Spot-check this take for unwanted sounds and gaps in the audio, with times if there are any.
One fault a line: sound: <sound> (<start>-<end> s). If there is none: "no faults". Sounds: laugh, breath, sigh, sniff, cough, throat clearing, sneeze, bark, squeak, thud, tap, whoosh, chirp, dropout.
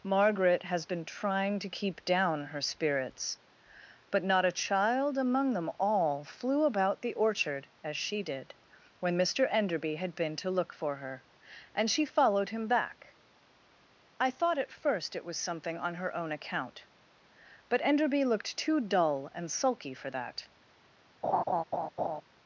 sound: laugh (21.2-22.2 s)